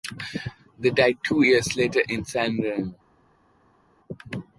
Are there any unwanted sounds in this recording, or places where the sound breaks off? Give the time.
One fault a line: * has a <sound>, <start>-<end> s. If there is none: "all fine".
all fine